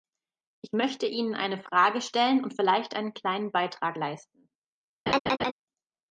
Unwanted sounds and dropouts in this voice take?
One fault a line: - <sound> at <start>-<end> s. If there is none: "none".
- laugh at 5.1-5.5 s